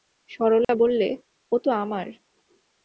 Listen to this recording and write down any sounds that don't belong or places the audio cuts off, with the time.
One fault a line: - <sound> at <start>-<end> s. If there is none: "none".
- dropout at 0.6-0.7 s